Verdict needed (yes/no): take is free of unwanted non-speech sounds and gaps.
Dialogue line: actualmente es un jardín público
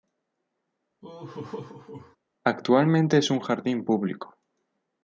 no